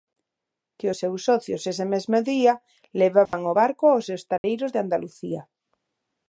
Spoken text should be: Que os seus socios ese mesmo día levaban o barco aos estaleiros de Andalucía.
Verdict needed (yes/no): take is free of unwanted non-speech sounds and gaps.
no